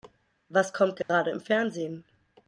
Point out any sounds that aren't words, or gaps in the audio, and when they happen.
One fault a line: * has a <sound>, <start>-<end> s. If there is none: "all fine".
* has a dropout, 1.0-1.1 s